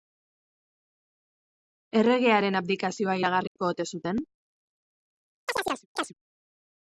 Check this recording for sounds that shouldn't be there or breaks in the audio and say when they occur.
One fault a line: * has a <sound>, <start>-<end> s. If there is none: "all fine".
* has a dropout, 3.5-3.6 s
* has a chirp, 5.5-6.1 s